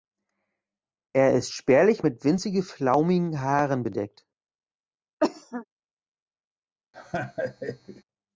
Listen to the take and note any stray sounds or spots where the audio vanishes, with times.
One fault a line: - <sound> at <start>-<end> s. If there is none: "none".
- cough at 5.2-5.6 s
- laugh at 6.9-8.0 s